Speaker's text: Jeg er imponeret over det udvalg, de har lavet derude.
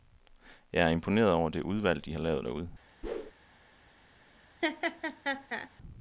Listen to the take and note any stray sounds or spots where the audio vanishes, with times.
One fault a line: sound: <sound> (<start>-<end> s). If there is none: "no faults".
sound: whoosh (3.0-3.3 s)
sound: laugh (4.6-5.7 s)